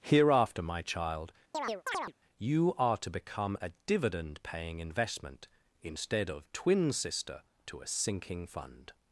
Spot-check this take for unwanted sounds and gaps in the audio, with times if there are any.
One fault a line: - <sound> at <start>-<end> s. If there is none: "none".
- chirp at 1.5-2.1 s